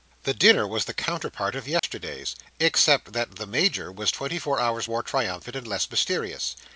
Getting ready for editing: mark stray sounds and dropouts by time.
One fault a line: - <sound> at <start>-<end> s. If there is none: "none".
- dropout at 1.8-1.8 s